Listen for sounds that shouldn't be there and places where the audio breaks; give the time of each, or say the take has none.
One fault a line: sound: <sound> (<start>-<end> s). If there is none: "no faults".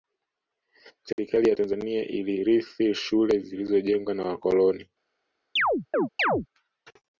sound: dropout (1.1-1.2 s)
sound: chirp (5.6-6.5 s)